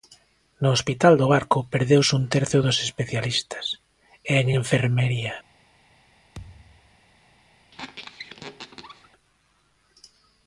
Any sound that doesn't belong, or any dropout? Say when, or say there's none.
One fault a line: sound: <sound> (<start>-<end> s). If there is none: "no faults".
sound: thud (6.3-7.0 s)
sound: squeak (7.7-9.1 s)